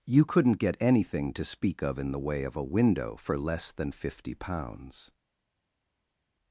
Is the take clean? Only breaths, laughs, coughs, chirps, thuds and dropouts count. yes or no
yes